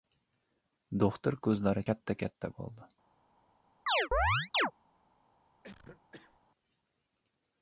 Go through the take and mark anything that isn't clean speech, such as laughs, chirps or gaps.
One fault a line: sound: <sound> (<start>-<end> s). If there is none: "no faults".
sound: chirp (3.9-4.7 s)
sound: cough (5.6-6.4 s)